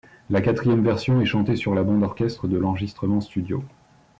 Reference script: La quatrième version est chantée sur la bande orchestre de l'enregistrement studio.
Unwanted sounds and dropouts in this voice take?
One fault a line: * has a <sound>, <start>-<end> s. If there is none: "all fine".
all fine